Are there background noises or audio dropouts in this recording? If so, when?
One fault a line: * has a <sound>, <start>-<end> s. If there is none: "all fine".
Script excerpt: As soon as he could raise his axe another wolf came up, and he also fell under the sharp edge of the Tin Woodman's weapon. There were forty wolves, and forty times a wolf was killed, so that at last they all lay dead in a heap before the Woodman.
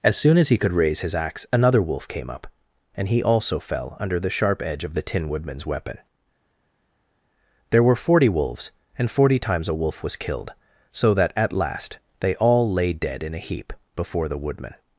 all fine